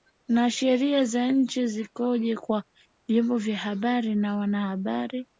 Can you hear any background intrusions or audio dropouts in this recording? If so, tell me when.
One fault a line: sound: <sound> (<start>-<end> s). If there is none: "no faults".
no faults